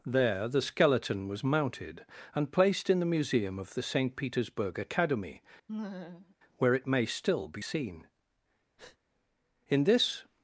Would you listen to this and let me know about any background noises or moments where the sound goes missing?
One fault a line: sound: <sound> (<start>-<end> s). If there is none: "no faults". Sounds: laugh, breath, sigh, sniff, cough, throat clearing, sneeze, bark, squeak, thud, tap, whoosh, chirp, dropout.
sound: laugh (5.7-6.4 s)
sound: breath (8.8-9.0 s)